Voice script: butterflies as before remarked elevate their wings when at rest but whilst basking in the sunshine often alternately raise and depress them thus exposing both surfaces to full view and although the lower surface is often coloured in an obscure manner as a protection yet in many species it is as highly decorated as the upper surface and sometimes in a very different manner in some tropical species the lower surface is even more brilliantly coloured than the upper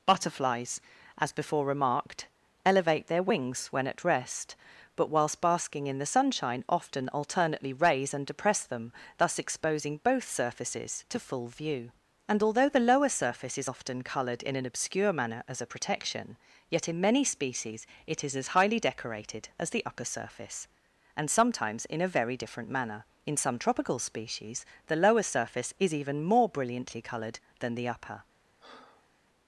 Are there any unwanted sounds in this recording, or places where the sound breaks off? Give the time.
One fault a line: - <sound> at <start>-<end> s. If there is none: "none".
- breath at 28.6-29.1 s